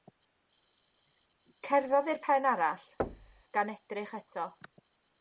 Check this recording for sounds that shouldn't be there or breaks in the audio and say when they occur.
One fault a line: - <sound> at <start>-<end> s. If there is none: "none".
- thud at 3.0-3.4 s